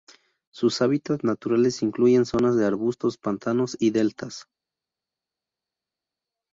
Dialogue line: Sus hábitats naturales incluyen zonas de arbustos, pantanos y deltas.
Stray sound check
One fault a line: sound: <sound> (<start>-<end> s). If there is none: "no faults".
no faults